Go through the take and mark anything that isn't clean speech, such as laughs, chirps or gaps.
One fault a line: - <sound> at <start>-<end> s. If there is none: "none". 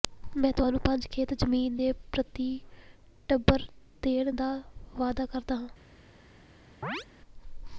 - chirp at 6.8-7.1 s